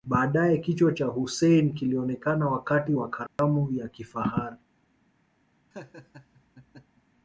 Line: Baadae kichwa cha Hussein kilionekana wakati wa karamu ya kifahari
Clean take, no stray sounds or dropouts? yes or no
no